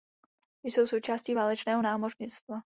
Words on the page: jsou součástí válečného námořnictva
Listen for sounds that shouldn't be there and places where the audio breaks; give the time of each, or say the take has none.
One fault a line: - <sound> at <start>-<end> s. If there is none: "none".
none